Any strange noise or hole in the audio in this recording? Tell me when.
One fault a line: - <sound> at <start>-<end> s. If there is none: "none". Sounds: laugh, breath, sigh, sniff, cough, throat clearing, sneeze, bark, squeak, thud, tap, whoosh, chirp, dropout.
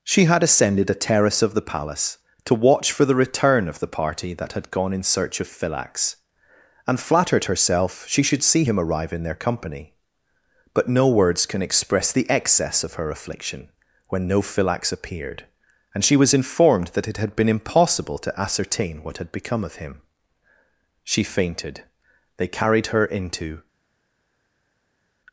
none